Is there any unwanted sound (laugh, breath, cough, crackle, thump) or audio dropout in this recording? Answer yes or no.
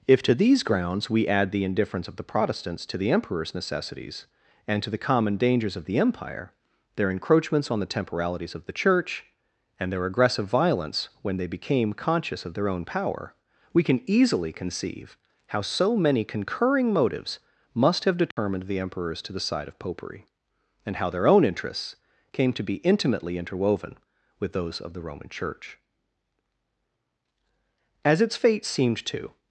yes